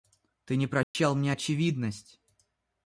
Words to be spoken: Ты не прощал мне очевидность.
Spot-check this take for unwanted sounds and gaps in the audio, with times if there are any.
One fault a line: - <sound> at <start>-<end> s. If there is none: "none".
- dropout at 0.8-0.9 s